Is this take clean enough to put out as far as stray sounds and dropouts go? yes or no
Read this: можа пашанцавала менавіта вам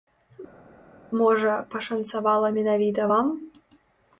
yes